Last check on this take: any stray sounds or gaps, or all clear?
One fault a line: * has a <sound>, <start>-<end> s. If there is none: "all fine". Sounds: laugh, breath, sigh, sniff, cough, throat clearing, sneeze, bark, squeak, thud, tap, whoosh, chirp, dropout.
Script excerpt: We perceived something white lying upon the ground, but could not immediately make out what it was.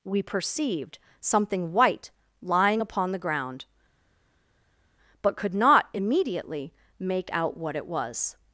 all fine